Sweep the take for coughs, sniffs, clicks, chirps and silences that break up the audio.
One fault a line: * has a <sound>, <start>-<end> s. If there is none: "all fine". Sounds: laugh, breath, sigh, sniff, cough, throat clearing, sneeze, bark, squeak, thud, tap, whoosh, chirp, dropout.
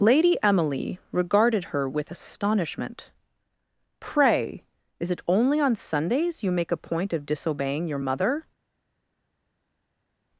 all fine